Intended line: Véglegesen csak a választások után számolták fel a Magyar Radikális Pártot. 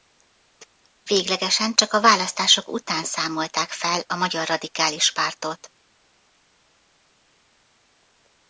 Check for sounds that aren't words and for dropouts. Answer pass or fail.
pass